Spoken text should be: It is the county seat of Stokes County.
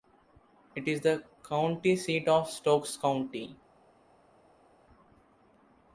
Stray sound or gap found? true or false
false